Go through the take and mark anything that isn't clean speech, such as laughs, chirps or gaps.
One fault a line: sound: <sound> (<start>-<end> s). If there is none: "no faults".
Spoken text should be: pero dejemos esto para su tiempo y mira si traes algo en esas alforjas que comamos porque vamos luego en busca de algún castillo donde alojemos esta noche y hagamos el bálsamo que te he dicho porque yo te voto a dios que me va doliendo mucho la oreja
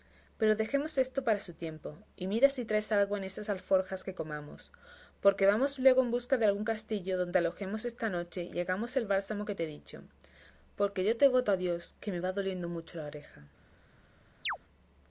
sound: chirp (14.4-14.6 s)